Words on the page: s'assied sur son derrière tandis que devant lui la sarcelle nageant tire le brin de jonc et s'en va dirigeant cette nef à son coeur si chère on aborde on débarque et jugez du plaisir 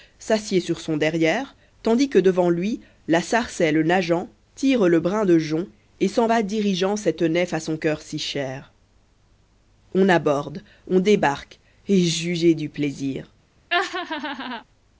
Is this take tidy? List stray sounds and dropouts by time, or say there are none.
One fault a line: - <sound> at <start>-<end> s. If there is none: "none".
- laugh at 13.7-14.6 s